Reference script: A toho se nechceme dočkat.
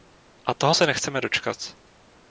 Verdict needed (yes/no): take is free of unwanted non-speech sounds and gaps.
yes